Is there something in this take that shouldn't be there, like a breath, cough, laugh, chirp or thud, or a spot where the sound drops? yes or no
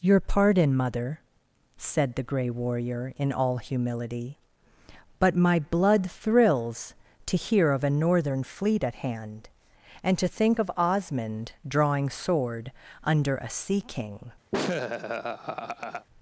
yes